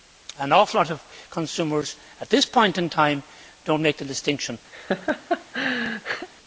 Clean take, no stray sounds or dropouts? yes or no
no